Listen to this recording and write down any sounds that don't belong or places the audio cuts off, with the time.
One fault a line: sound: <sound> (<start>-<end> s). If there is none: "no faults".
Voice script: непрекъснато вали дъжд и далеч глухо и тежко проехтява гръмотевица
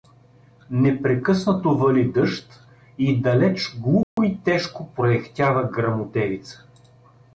sound: dropout (4.0-4.2 s)